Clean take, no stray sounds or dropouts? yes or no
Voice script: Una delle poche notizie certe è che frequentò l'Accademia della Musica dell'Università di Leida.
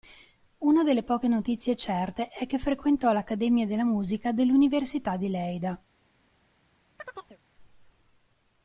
no